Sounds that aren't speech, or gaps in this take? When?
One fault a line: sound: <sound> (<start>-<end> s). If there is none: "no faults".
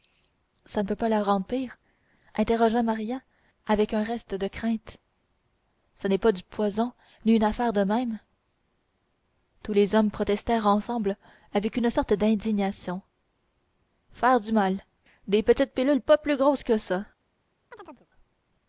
sound: chirp (17.7-18.1 s)